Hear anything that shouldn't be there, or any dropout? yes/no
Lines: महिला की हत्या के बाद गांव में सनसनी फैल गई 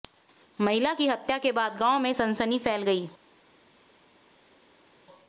no